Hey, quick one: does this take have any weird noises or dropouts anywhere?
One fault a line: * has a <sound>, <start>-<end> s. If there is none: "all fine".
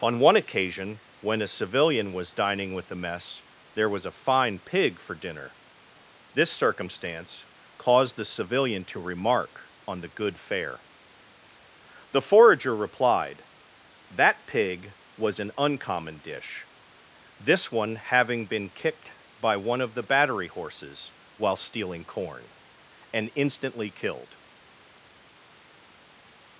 all fine